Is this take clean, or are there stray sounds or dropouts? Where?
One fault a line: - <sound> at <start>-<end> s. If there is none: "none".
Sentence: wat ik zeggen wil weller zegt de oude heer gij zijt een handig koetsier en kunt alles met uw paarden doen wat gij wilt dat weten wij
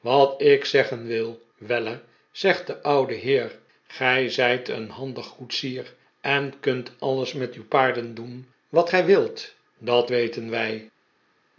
none